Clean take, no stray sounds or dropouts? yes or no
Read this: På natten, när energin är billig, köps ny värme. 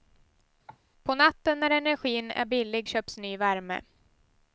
no